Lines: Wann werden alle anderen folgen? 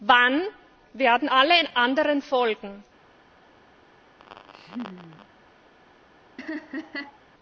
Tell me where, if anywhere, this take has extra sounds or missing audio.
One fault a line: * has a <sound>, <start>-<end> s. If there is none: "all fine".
* has a laugh, 4.2-5.3 s
* has a laugh, 6.4-7.2 s